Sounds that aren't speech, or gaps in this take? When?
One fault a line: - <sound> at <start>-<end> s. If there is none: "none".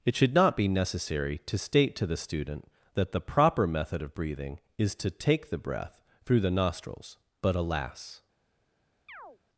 - chirp at 9.1-9.4 s